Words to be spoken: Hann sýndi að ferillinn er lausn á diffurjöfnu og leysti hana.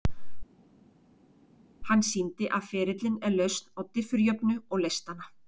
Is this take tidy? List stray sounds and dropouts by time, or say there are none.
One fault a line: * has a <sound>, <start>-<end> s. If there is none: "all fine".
all fine